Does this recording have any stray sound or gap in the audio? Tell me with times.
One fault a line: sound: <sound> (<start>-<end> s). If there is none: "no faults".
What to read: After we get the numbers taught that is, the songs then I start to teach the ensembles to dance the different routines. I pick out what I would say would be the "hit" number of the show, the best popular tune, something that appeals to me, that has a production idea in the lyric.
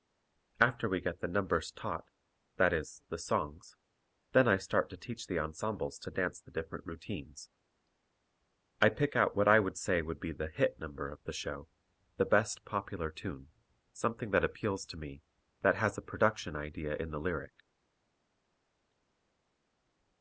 no faults